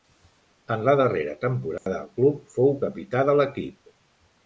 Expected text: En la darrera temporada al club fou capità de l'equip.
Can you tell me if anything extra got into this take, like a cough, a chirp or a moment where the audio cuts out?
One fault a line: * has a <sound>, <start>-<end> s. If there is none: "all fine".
* has a dropout, 1.8-1.9 s